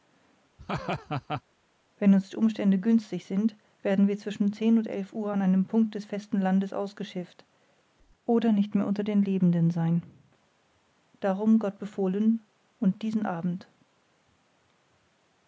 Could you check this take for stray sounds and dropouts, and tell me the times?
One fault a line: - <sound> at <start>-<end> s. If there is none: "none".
- laugh at 0.6-1.4 s